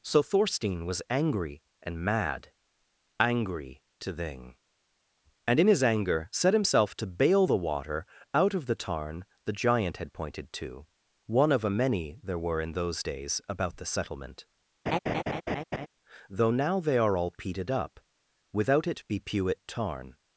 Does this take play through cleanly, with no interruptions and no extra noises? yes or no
no